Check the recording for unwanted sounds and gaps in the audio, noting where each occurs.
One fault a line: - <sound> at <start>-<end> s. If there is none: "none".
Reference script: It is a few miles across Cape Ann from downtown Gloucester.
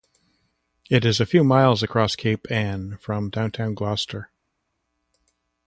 none